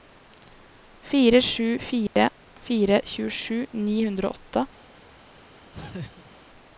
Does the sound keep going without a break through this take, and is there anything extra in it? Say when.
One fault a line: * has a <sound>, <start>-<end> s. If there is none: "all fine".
* has a dropout, 2.1-2.2 s
* has a laugh, 5.7-6.3 s